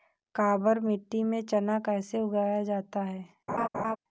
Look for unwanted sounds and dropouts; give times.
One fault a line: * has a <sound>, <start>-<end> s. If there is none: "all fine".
* has a laugh, 3.5-4.0 s